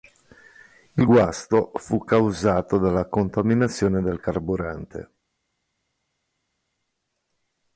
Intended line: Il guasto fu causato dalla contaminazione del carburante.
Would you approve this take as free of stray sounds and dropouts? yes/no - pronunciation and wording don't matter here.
yes